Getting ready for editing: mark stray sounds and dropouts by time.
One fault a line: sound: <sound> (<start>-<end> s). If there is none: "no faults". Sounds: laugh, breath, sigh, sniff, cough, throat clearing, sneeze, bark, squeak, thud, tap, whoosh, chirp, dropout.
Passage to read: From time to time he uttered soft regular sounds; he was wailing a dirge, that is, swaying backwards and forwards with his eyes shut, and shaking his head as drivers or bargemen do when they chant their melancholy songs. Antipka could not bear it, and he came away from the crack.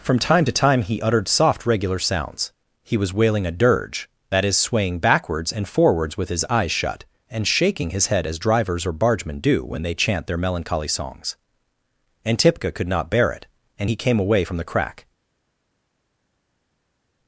no faults